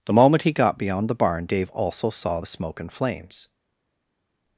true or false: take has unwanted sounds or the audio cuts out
false